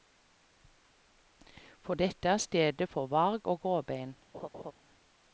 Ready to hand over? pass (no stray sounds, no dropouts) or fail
fail